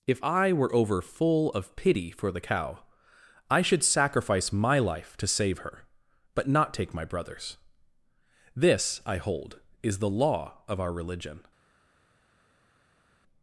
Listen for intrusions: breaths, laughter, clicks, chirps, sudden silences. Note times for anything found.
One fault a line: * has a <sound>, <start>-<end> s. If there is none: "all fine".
all fine